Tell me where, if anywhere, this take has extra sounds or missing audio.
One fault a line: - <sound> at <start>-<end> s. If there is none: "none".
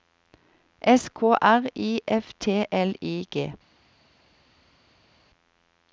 none